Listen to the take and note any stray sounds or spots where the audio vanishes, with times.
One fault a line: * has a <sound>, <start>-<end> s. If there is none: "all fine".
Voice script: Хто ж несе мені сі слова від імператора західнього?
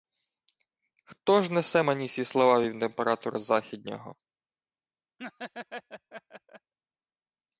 * has a laugh, 5.2-6.7 s